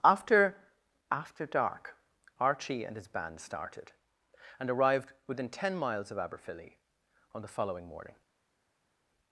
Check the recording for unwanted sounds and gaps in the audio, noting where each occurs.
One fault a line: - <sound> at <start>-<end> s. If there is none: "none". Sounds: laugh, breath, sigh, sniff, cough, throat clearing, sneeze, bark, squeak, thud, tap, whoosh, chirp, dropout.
none